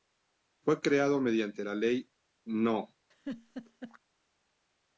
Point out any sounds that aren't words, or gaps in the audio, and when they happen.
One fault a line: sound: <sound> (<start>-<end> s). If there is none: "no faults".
sound: laugh (3.1-4.0 s)